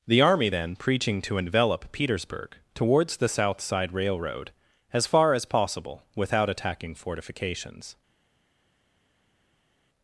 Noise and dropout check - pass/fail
pass